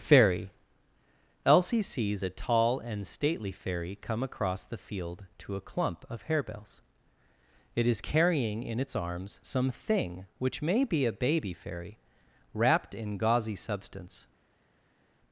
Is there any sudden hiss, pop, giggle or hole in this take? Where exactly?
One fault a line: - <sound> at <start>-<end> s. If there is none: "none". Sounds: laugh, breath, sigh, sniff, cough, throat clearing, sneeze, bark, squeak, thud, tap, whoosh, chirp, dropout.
none